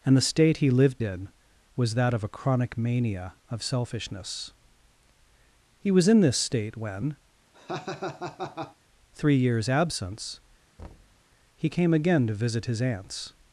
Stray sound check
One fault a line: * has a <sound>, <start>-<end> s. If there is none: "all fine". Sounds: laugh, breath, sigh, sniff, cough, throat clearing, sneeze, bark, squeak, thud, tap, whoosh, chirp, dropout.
* has a laugh, 7.5-8.8 s
* has a thud, 10.8-11.3 s